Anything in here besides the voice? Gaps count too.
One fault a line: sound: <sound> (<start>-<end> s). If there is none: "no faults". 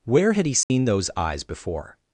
sound: dropout (0.6-0.7 s)